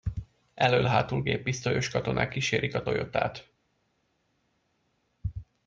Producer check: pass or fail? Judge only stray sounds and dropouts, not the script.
pass